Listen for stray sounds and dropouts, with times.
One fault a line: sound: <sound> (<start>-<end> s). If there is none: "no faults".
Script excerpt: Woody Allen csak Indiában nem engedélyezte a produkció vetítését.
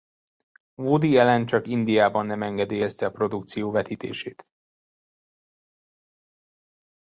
no faults